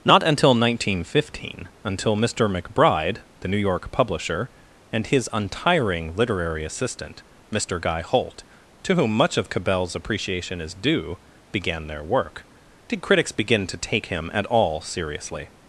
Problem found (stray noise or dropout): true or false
false